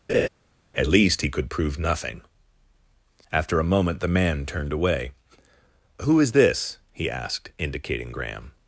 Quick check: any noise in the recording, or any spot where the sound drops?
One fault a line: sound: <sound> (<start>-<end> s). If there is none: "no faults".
sound: laugh (0.1-0.3 s)